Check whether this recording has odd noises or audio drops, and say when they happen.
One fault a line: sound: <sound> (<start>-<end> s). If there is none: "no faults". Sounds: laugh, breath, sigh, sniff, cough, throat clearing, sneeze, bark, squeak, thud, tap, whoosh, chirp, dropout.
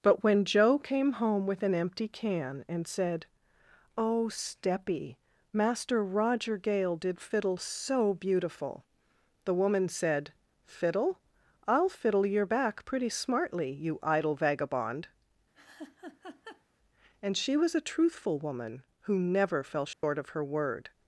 sound: laugh (15.5-16.6 s)
sound: dropout (19.9-20.0 s)